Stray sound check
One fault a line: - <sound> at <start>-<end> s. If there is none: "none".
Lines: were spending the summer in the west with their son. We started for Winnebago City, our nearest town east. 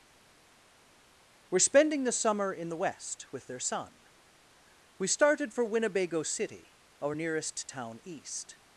none